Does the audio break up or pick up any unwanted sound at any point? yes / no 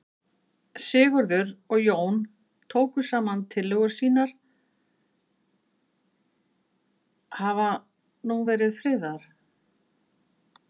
no